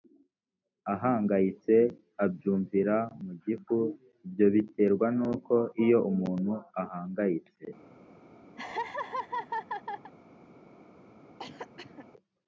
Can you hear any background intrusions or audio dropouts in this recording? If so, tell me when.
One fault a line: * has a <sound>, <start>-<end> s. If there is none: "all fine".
* has a laugh, 8.6-10.1 s
* has a cough, 11.4-12.1 s